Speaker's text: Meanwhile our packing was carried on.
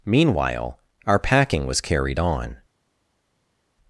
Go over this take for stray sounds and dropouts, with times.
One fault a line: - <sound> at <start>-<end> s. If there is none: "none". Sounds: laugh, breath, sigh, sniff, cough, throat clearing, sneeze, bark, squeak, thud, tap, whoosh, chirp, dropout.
none